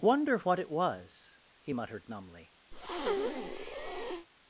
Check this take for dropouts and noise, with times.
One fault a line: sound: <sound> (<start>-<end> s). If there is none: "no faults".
sound: breath (2.7-4.3 s)